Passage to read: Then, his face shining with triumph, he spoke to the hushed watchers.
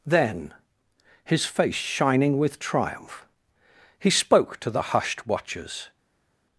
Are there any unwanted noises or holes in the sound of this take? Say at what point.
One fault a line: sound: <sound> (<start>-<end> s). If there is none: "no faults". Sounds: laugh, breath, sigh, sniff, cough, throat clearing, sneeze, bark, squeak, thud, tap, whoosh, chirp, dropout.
no faults